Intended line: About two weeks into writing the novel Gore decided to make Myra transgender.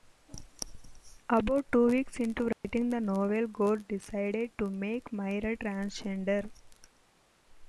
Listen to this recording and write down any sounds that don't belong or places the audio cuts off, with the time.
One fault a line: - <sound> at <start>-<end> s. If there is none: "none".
- dropout at 2.5-2.6 s